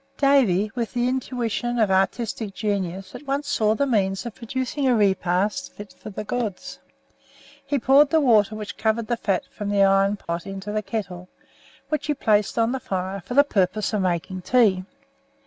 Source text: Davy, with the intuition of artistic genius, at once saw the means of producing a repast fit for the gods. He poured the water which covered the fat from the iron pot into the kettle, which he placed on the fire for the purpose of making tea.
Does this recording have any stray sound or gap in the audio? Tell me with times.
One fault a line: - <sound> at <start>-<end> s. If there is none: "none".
- dropout at 10.2-10.3 s